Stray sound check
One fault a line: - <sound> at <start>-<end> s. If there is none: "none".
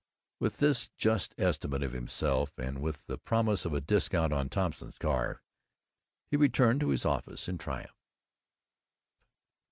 none